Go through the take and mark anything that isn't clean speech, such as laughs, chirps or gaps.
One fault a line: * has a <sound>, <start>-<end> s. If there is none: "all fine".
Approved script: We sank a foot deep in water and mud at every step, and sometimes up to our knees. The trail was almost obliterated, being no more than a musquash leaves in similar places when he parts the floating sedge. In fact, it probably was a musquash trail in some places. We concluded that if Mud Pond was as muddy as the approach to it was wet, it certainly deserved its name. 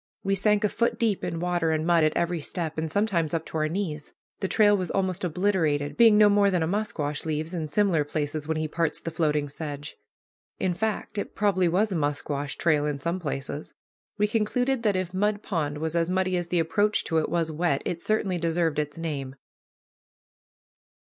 all fine